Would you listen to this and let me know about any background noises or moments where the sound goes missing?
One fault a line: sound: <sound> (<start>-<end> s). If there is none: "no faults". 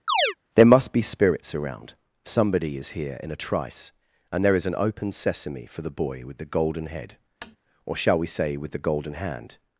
sound: chirp (0.1-0.4 s)
sound: tap (7.4-7.6 s)